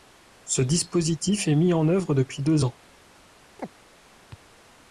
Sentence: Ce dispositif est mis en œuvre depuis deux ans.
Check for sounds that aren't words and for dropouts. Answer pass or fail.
fail